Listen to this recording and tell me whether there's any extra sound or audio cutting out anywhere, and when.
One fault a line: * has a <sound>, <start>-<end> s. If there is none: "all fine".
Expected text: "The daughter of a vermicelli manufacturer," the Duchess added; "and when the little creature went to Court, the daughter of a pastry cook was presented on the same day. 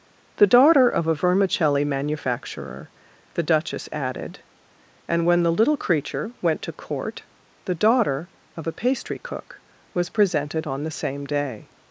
all fine